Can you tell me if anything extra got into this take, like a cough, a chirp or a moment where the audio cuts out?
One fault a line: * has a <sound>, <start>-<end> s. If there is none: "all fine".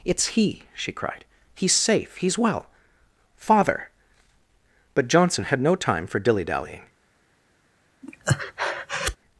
* has a breath, 8.0-9.2 s